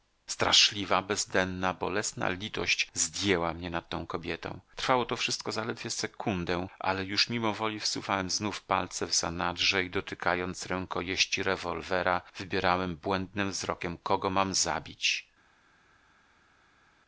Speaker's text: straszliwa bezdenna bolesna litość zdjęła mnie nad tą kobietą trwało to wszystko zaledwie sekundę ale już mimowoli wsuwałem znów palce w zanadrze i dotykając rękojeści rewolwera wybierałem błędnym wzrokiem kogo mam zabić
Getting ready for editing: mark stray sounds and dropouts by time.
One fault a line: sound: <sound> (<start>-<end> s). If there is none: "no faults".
no faults